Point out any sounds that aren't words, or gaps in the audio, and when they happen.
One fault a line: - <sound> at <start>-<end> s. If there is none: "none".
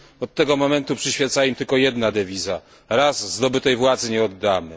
none